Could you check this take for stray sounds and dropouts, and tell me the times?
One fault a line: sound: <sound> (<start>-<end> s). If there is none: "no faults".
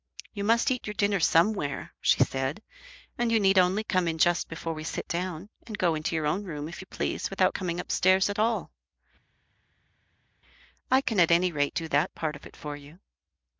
no faults